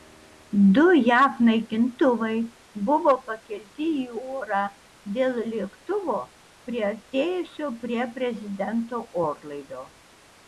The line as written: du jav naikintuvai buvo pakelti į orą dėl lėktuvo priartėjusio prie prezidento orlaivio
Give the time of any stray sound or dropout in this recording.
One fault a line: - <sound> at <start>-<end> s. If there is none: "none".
none